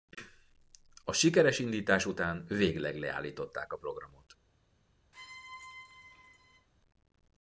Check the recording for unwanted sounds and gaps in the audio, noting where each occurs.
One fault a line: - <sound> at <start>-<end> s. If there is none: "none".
- squeak at 5.1-6.7 s